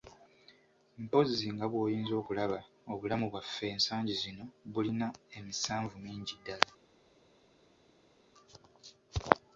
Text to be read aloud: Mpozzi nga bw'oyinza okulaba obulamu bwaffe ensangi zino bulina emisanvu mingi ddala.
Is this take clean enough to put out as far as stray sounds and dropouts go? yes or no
yes